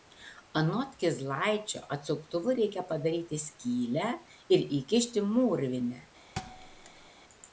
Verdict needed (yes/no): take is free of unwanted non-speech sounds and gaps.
no